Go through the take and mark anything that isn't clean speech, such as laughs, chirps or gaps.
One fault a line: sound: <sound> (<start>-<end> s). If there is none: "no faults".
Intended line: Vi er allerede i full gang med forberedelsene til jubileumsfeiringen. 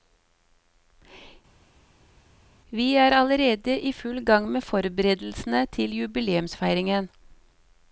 no faults